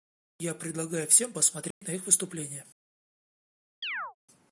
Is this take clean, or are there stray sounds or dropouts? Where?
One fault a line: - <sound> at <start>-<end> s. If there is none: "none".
- dropout at 1.7-1.8 s
- chirp at 3.8-4.2 s